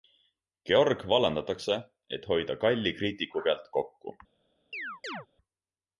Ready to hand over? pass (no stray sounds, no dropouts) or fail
fail